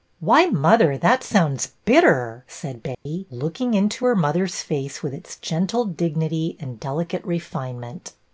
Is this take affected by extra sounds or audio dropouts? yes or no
yes